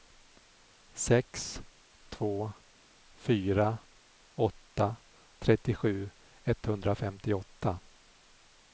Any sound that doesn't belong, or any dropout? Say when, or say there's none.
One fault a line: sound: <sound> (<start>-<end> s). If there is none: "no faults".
no faults